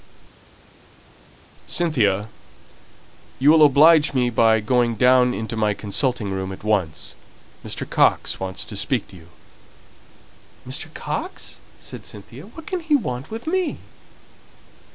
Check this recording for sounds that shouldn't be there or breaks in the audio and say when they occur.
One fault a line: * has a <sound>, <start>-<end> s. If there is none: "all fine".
all fine